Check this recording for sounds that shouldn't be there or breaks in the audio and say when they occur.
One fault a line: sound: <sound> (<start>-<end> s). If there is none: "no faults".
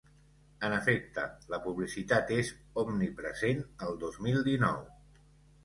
no faults